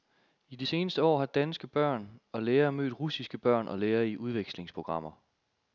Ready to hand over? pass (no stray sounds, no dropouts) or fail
pass